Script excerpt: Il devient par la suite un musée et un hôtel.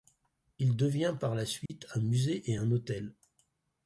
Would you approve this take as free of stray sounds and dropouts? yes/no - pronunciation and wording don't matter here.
no